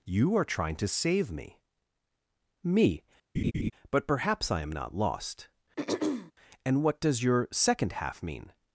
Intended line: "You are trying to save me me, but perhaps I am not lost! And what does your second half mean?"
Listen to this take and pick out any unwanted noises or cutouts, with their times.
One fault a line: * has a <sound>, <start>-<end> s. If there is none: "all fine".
* has a laugh, 3.3-3.7 s
* has a throat clearing, 5.8-6.3 s